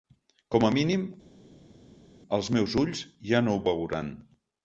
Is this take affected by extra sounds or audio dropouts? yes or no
no